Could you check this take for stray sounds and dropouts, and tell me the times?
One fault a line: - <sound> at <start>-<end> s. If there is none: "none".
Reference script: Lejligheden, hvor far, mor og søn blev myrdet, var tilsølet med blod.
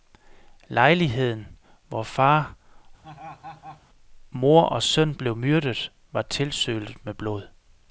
- laugh at 3.0-3.8 s